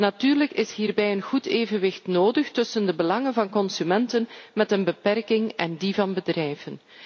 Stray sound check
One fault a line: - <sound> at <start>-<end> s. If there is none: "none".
none